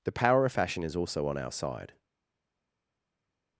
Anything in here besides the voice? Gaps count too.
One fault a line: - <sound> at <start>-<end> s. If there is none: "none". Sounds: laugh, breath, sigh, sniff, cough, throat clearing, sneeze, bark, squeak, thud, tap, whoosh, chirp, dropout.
none